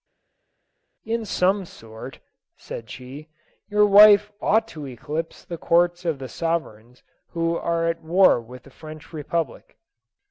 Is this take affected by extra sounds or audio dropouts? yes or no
no